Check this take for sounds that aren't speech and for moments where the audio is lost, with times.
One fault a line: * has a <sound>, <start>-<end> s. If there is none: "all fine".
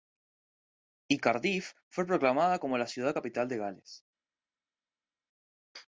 all fine